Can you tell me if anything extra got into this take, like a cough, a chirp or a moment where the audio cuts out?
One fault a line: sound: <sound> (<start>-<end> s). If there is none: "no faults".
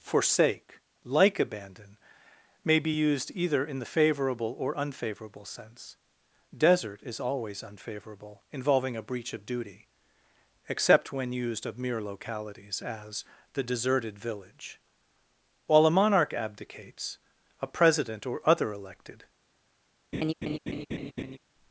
sound: laugh (20.1-21.4 s)